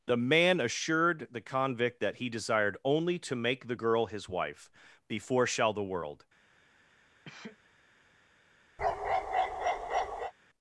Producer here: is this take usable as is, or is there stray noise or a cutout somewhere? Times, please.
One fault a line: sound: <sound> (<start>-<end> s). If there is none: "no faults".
sound: sneeze (7.2-7.6 s)
sound: bark (8.8-10.3 s)